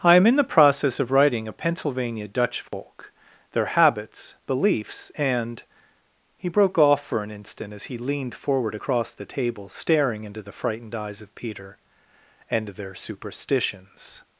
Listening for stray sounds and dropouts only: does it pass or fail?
fail